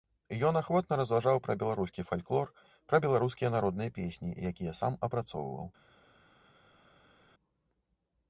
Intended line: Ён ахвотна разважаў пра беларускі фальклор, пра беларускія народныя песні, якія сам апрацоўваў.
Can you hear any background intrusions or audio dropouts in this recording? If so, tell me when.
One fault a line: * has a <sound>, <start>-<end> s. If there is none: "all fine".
all fine